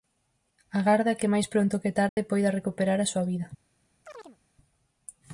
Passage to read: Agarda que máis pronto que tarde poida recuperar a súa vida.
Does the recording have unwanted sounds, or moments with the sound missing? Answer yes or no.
yes